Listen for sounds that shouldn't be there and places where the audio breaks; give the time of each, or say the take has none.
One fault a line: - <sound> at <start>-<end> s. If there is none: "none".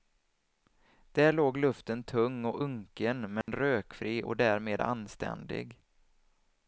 - dropout at 3.4-3.5 s